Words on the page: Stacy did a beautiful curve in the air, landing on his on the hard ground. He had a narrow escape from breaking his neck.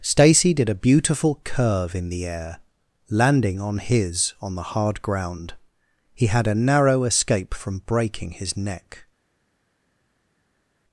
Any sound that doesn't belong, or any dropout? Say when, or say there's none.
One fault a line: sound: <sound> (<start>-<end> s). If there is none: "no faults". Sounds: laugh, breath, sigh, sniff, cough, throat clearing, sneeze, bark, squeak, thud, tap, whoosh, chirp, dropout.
no faults